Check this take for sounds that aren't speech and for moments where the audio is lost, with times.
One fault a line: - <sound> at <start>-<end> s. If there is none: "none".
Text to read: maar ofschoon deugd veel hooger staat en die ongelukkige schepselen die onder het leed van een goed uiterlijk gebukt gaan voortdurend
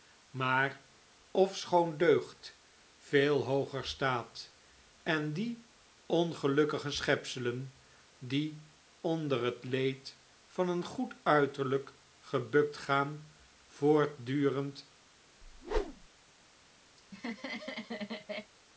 - whoosh at 15.4-16.1 s
- laugh at 17.0-18.5 s